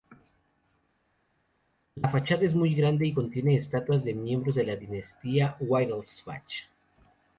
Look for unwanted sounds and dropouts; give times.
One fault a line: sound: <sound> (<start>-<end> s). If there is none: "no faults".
no faults